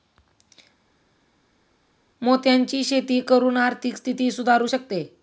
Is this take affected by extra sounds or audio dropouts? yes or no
no